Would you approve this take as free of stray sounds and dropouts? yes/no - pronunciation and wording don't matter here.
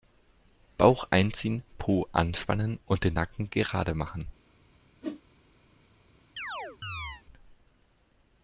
no